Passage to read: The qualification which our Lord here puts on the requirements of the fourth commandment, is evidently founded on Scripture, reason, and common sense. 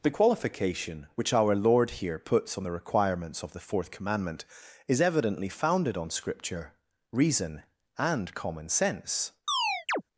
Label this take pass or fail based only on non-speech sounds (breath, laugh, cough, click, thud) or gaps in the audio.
fail